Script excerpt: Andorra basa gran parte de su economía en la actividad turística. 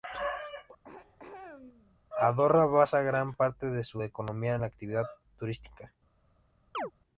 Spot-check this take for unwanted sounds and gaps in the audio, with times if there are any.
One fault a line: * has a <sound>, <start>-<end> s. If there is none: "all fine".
* has a throat clearing, 0.8-2.0 s
* has a chirp, 6.7-6.9 s